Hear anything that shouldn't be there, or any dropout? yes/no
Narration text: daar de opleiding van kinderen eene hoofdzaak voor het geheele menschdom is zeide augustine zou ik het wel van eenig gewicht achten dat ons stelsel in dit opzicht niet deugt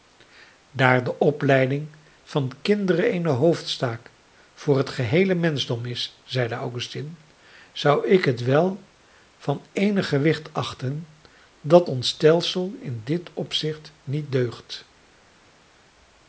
no